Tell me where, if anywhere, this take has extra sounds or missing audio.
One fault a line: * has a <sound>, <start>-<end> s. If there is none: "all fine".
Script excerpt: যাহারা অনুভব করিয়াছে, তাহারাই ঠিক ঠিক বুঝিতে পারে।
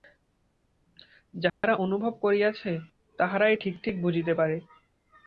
* has a dropout, 1.5-1.6 s